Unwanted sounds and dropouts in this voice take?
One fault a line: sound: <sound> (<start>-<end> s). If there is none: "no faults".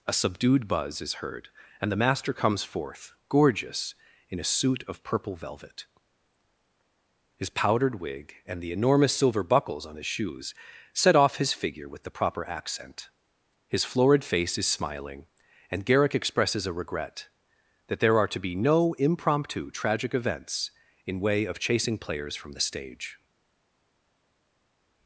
no faults